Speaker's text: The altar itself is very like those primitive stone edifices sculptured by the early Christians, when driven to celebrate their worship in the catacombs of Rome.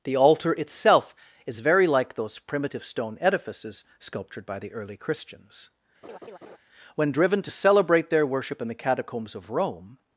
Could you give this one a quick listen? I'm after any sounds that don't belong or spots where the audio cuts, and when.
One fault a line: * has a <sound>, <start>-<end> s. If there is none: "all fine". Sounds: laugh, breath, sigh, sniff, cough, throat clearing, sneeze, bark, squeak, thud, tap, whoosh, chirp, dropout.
* has a laugh, 6.0-6.6 s